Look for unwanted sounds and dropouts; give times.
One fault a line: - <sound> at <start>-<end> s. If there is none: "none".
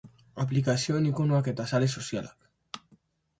none